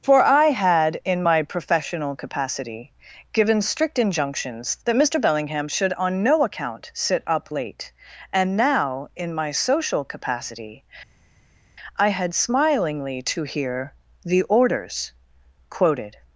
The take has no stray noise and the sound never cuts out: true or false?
true